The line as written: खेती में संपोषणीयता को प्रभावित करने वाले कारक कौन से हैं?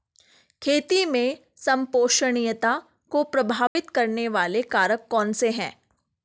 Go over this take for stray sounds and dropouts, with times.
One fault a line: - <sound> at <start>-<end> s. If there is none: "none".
- dropout at 3.7-3.8 s